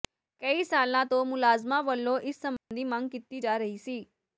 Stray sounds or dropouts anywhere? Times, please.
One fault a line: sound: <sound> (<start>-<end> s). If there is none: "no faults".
sound: dropout (2.6-2.7 s)